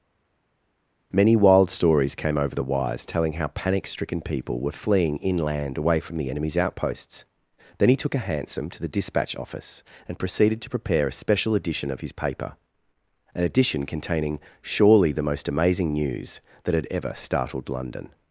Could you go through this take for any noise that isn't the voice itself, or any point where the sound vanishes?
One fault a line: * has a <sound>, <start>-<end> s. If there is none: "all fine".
all fine